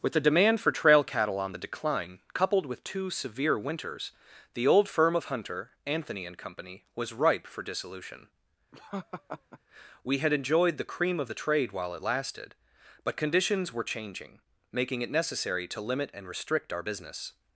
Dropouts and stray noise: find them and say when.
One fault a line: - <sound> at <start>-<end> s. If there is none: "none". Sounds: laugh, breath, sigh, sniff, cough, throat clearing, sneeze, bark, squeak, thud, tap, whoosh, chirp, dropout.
- laugh at 8.7-9.6 s